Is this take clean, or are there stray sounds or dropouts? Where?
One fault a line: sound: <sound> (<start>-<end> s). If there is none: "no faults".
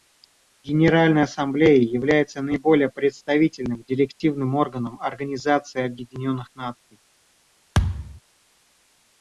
sound: thud (7.7-8.2 s)